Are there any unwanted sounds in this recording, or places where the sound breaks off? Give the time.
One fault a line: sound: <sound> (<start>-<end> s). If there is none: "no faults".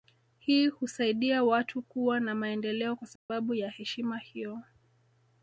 sound: dropout (3.2-3.3 s)